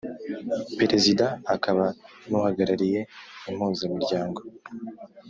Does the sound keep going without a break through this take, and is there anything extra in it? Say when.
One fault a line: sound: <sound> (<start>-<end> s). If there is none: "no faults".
no faults